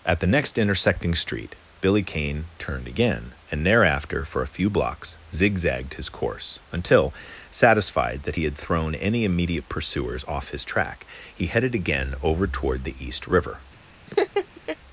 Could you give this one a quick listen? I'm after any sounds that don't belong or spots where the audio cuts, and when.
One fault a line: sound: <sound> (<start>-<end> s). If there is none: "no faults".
sound: laugh (14.1-14.8 s)